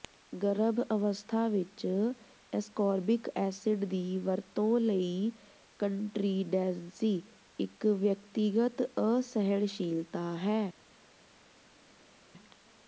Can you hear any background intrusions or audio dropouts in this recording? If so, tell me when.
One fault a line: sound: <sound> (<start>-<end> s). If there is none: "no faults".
no faults